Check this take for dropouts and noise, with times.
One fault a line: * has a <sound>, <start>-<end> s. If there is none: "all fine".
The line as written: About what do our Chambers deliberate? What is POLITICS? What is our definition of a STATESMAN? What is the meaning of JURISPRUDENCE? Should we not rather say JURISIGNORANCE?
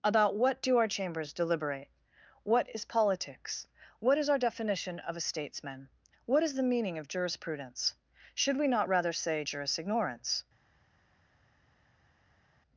all fine